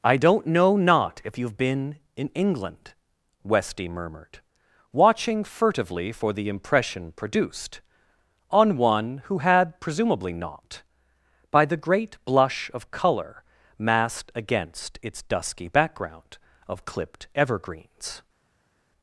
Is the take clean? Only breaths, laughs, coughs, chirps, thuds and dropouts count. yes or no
yes